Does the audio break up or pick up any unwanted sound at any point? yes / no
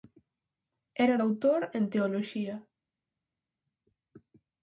no